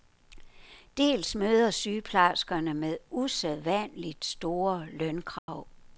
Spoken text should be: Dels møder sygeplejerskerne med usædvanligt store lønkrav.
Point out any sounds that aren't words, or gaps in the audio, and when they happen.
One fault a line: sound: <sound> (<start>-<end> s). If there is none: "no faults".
sound: dropout (5.4-5.5 s)